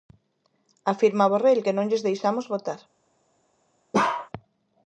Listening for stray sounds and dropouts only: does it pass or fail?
fail